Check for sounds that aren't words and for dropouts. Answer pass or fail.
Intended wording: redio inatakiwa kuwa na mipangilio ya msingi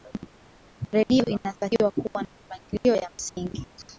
pass